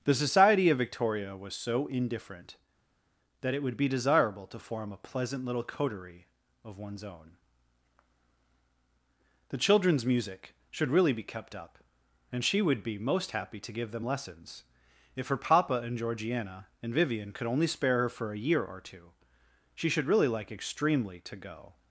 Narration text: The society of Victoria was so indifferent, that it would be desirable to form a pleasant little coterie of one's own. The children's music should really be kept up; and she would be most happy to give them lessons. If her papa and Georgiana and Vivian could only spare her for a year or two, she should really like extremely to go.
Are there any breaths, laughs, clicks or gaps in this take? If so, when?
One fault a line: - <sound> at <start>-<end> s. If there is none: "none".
none